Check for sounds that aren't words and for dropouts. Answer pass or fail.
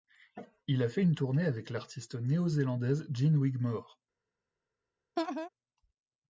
fail